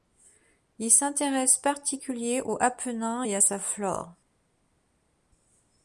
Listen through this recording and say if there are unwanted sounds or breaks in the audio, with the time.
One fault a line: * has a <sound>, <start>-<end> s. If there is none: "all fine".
all fine